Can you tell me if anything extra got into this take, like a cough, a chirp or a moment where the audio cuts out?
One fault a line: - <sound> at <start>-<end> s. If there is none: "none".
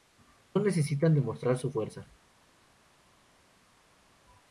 none